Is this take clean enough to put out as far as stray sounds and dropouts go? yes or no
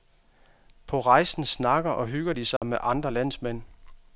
no